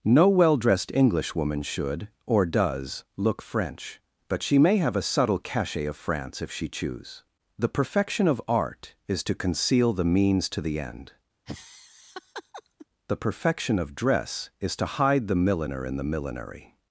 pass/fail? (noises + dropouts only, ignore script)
fail